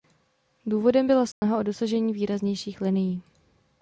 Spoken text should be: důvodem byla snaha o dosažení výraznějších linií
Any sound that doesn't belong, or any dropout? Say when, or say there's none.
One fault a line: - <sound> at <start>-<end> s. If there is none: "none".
- dropout at 1.3-1.4 s